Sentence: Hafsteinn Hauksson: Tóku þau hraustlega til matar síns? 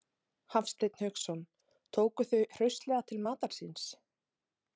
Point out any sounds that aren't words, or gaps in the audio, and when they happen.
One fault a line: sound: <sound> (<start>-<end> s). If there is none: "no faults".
no faults